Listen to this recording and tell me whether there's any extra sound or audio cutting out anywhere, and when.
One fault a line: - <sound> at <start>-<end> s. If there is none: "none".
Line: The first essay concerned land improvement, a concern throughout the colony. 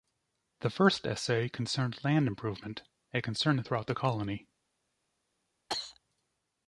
- cough at 5.7-6.0 s